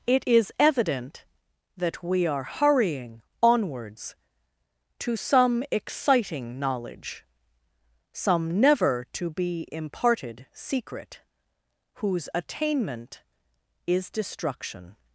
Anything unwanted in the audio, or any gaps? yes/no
no